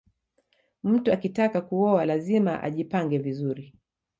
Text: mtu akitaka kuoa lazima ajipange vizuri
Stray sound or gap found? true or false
false